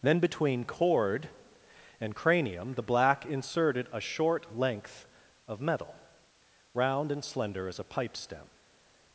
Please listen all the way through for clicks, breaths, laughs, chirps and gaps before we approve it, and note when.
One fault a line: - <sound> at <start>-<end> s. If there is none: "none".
none